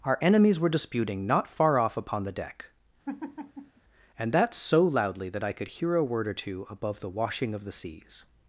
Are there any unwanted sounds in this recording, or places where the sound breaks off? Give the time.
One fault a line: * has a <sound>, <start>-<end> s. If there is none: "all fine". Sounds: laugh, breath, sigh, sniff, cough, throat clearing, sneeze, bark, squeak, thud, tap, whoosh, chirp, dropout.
* has a laugh, 3.1-3.8 s